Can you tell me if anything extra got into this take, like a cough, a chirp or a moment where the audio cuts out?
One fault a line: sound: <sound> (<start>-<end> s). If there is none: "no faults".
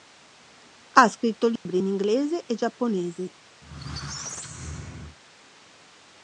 sound: dropout (1.6-1.7 s)
sound: squeak (3.6-5.2 s)